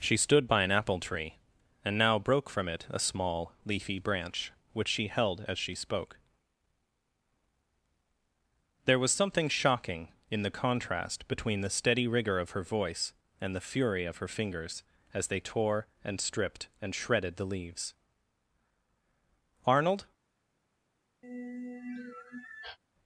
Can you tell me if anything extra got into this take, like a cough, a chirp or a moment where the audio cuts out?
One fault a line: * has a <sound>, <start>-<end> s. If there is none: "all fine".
* has a sigh, 21.2-22.8 s